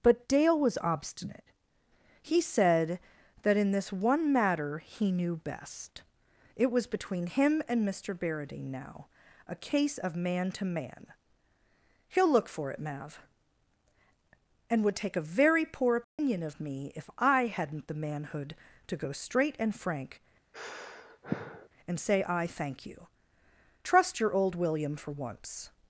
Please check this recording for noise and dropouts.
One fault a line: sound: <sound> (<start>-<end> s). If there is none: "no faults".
sound: dropout (16.0-16.2 s)
sound: sigh (20.5-21.7 s)